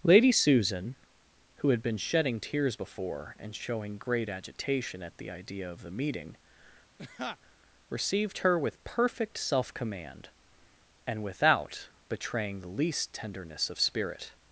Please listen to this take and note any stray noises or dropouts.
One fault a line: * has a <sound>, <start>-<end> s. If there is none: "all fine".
* has a laugh, 7.0-7.4 s